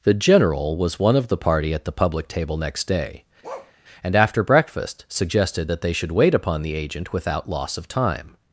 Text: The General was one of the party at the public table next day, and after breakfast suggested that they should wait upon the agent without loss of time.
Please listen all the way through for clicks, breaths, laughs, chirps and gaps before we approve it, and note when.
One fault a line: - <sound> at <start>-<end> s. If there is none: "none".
- bark at 3.4-3.7 s